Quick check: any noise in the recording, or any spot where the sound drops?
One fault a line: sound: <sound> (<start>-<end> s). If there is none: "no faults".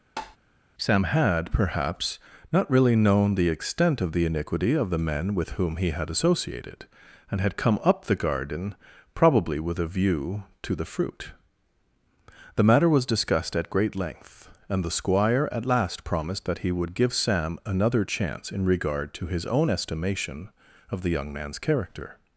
sound: tap (0.2-0.4 s)